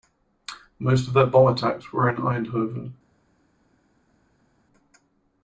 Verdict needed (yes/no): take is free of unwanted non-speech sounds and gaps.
yes